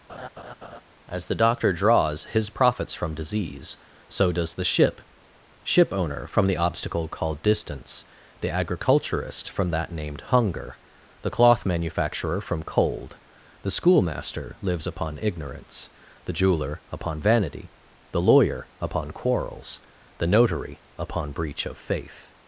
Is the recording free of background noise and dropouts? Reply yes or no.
no